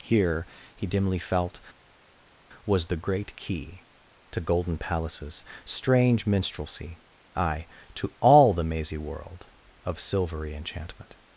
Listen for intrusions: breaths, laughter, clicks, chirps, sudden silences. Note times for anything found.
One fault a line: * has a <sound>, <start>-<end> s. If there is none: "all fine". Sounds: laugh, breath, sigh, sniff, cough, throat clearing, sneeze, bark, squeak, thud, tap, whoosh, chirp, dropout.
all fine